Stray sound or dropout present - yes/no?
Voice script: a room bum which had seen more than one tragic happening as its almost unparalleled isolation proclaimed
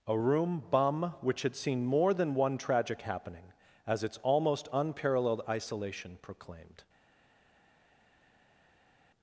no